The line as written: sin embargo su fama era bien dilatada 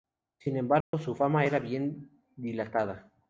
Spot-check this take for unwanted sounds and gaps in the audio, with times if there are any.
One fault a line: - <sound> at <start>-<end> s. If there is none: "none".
- dropout at 0.8-0.9 s